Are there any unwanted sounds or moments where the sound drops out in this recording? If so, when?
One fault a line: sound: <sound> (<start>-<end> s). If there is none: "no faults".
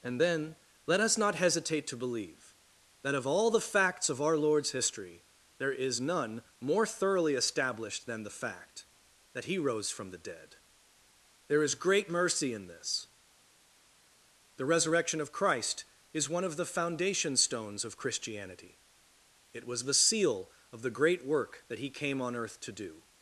no faults